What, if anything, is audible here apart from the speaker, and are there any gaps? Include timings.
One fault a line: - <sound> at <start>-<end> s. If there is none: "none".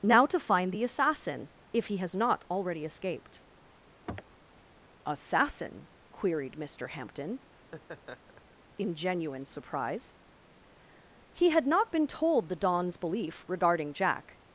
- sniff at 4.1-4.4 s
- laugh at 7.5-8.6 s